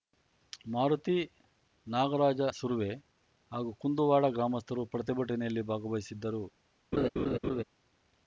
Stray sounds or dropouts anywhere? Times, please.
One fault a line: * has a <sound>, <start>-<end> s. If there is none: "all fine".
* has a laugh, 6.9-7.6 s